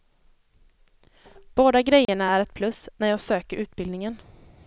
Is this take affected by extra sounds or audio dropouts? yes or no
yes